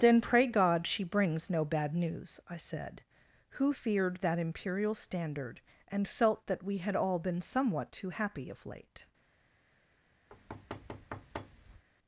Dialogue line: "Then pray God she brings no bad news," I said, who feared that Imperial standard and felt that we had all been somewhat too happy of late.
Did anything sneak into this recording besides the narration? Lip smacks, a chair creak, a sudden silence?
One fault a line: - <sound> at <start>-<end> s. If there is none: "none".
- thud at 10.3-11.8 s